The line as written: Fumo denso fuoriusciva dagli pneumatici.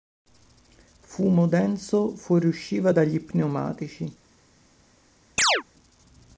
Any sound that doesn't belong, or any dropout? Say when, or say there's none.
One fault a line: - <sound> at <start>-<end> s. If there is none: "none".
- chirp at 5.4-5.6 s